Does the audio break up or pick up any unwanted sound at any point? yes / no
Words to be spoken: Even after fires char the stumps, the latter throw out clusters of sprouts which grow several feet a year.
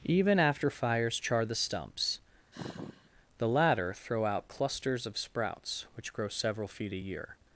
yes